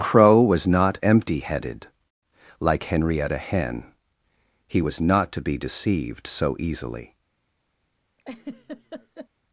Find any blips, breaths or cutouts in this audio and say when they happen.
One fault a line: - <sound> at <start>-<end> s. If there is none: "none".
- laugh at 8.2-9.3 s